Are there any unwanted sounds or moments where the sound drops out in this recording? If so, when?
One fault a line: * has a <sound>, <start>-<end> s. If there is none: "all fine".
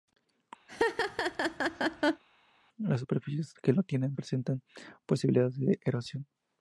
* has a laugh, 0.7-2.2 s